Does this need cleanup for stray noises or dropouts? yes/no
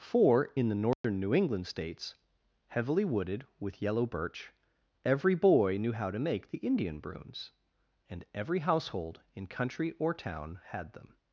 yes